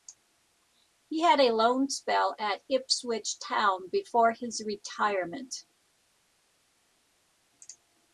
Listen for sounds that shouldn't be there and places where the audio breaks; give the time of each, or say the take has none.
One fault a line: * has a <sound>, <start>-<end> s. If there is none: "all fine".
all fine